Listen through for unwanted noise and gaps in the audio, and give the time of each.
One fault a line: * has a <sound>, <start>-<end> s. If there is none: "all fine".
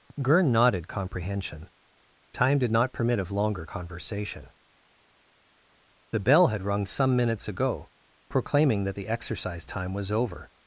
all fine